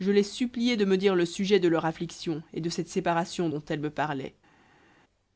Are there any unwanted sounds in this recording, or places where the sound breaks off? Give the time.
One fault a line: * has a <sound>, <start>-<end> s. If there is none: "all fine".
all fine